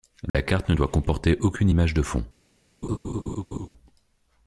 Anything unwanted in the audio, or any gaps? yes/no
yes